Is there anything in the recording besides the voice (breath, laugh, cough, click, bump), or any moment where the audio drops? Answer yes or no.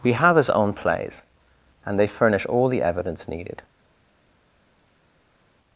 no